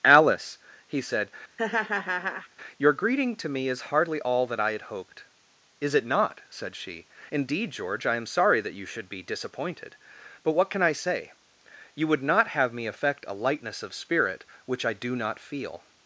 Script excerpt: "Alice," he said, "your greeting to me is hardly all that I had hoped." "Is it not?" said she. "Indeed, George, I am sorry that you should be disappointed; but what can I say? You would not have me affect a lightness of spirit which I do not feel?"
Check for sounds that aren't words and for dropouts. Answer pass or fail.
fail